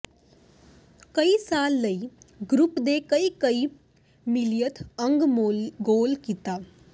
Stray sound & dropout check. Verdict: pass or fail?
pass